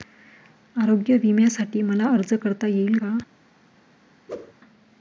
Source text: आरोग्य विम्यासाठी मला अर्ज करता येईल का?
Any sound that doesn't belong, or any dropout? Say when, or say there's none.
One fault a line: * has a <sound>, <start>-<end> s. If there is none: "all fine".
* has a whoosh, 4.3-4.5 s